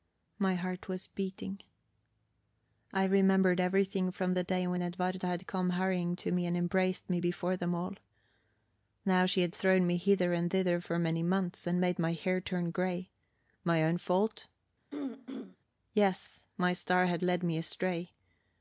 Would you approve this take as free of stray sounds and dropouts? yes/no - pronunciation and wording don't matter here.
no